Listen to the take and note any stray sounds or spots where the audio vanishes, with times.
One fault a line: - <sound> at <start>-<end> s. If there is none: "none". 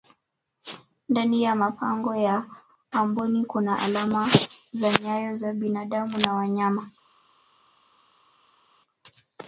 none